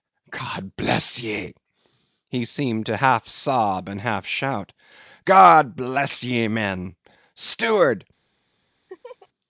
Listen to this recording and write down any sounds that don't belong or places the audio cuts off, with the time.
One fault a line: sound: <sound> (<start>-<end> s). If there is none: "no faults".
sound: laugh (8.9-9.3 s)